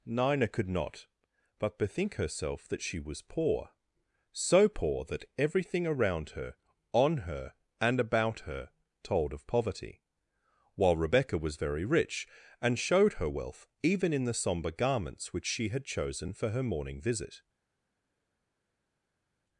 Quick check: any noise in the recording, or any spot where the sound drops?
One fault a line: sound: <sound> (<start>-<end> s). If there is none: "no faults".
no faults